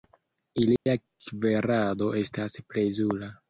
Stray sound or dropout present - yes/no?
yes